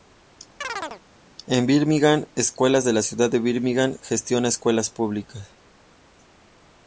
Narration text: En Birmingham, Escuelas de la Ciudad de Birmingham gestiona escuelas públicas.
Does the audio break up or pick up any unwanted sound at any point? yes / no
yes